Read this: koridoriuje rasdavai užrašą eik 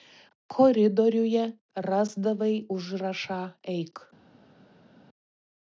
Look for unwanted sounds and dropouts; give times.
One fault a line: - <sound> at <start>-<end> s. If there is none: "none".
none